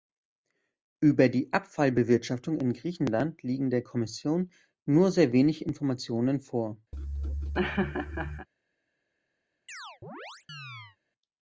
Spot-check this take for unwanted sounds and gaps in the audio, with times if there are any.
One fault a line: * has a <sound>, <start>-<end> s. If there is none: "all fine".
* has a laugh, 6.9-8.5 s
* has a chirp, 9.7-11.0 s